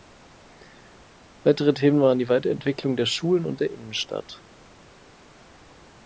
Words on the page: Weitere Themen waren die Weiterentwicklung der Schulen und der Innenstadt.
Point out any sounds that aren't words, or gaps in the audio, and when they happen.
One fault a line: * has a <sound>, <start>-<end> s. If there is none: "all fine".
all fine